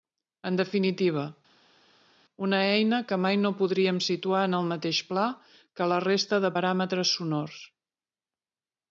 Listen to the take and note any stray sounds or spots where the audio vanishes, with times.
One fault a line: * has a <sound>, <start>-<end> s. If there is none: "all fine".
all fine